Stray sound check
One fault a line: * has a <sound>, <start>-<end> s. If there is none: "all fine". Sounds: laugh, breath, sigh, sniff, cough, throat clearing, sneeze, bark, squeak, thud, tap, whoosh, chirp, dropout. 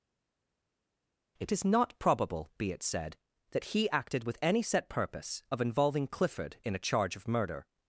all fine